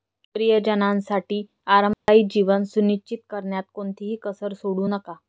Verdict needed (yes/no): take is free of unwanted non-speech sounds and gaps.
no